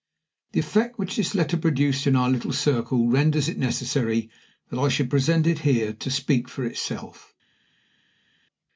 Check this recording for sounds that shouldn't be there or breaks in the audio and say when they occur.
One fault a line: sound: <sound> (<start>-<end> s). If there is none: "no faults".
no faults